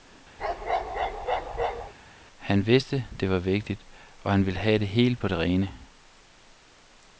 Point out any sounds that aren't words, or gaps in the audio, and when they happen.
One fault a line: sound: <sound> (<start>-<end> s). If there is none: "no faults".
sound: bark (0.4-1.9 s)